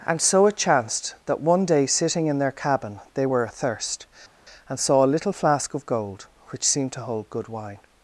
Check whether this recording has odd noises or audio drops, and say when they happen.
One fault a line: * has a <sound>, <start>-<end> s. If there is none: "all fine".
all fine